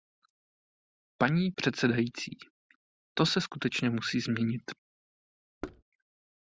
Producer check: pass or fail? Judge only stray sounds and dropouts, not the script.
fail